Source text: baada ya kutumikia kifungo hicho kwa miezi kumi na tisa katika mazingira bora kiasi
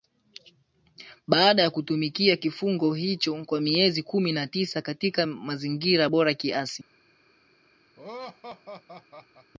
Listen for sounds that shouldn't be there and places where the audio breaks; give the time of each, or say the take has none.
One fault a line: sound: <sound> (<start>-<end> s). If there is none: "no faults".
sound: laugh (8.0-9.5 s)